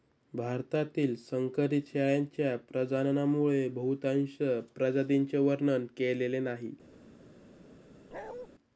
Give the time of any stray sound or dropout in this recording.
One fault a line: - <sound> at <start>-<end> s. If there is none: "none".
- bark at 8.1-8.5 s